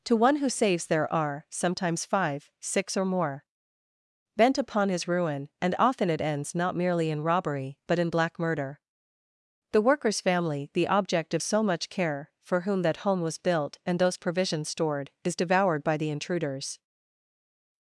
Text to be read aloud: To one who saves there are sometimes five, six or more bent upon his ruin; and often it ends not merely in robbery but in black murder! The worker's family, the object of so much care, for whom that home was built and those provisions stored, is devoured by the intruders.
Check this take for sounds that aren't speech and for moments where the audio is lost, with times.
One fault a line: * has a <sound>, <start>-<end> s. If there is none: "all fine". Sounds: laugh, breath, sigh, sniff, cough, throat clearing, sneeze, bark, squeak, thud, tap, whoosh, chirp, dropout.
all fine